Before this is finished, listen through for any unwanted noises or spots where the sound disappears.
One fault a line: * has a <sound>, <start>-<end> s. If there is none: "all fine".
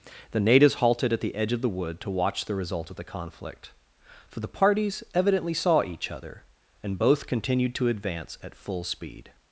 all fine